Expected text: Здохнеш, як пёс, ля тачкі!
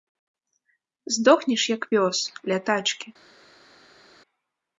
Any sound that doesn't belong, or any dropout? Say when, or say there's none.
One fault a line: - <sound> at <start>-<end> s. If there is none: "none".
none